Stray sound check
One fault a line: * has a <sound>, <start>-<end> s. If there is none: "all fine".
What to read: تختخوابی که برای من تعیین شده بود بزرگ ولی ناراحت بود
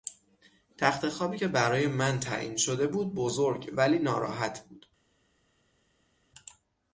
all fine